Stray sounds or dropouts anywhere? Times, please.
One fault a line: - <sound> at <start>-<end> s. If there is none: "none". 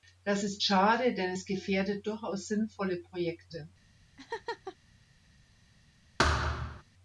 - laugh at 4.2-4.8 s
- thud at 6.2-6.8 s